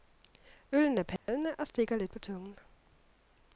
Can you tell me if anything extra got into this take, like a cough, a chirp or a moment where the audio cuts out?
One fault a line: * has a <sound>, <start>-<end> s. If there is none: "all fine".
* has a dropout, 1.2-1.3 s